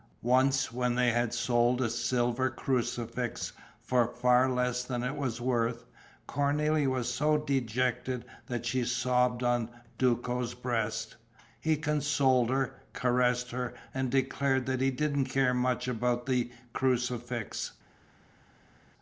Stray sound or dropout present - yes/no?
no